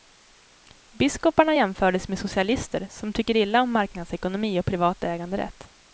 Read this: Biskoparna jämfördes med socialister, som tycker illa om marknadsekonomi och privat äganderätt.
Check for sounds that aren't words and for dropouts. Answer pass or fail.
pass